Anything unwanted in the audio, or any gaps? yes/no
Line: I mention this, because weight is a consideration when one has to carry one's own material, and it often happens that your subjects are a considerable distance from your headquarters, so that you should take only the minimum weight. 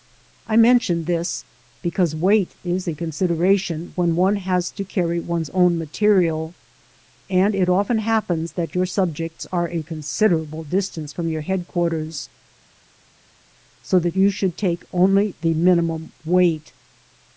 no